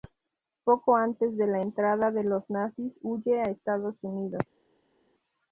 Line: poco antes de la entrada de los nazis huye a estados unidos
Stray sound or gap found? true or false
false